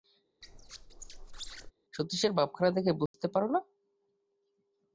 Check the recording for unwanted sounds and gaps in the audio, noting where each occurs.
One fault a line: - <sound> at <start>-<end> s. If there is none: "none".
- squeak at 0.4-1.7 s
- dropout at 3.1-3.1 s